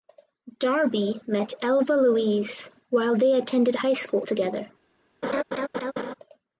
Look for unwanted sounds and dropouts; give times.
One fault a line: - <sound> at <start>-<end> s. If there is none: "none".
- laugh at 5.2-6.1 s